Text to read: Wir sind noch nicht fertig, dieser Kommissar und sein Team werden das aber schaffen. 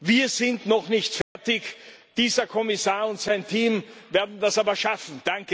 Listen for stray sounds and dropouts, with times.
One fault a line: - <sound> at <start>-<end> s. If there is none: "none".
- dropout at 1.2-1.4 s